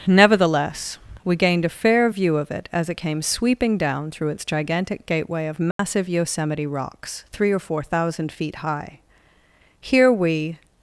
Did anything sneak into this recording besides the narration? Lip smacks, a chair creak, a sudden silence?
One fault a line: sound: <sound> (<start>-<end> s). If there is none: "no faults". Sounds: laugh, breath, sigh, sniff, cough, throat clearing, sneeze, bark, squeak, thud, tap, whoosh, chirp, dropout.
sound: dropout (5.7-5.8 s)